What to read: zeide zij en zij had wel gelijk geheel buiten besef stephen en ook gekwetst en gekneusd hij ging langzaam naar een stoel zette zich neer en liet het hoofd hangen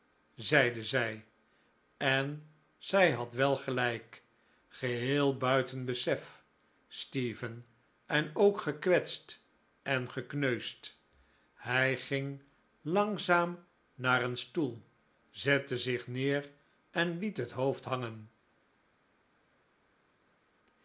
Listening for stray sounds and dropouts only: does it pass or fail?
pass